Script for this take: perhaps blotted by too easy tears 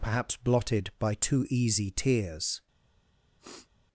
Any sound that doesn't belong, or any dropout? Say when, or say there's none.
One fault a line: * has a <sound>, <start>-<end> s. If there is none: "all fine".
* has a sniff, 3.4-3.7 s